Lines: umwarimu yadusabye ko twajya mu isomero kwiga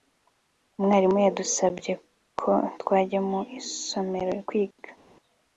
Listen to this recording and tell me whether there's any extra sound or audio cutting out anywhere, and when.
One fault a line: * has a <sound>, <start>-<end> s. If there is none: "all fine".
all fine